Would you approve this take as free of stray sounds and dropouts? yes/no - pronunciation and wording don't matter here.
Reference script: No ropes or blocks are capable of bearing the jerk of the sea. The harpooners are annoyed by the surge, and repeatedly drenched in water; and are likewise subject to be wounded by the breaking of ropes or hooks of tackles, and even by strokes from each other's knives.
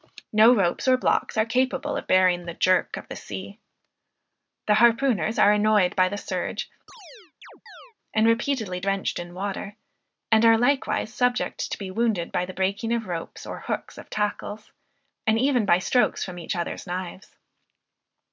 no